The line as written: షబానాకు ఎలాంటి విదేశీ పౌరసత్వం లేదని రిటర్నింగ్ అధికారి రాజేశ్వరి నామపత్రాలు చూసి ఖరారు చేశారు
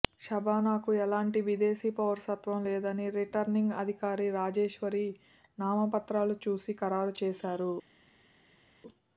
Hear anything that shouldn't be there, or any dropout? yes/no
no